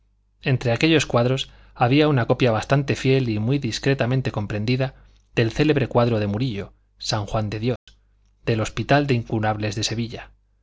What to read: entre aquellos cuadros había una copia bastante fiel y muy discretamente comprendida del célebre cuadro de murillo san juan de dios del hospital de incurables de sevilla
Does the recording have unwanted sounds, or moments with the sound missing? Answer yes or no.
yes